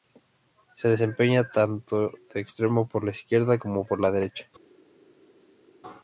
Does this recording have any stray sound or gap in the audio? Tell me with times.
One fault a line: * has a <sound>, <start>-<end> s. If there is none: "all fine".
all fine